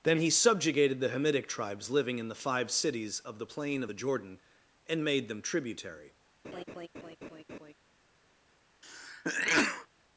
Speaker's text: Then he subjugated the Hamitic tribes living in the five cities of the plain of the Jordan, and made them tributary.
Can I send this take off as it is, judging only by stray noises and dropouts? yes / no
no